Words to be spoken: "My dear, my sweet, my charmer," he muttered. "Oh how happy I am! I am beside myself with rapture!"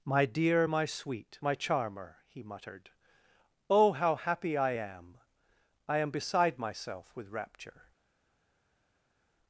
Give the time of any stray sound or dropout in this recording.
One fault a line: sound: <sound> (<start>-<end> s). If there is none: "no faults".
no faults